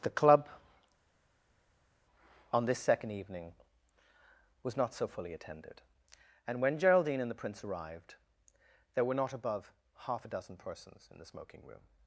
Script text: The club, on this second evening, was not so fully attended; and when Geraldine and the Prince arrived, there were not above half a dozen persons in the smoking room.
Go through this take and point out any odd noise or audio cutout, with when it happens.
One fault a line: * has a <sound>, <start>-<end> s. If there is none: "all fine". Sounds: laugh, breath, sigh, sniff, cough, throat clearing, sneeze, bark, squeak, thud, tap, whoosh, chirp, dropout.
all fine